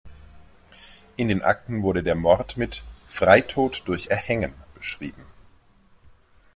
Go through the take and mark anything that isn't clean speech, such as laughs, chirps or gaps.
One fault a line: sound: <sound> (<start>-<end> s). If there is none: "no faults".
no faults